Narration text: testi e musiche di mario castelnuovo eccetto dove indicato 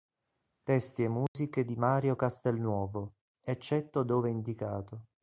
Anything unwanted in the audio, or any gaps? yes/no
yes